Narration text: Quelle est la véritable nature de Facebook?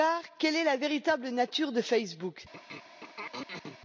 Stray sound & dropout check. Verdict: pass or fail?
fail